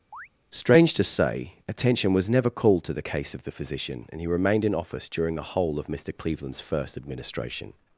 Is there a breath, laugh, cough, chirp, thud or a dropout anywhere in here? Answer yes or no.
yes